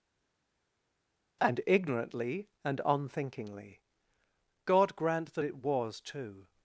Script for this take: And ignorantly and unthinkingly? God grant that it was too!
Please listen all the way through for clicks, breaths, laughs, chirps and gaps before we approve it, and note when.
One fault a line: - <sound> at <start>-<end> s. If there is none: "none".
none